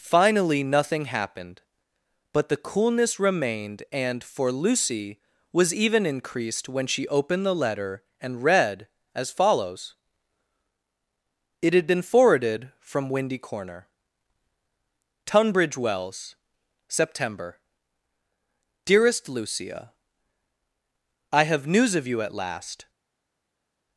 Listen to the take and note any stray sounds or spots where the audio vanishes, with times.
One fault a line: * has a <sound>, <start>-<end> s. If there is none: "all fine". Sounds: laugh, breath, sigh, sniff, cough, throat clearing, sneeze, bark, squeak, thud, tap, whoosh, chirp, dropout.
all fine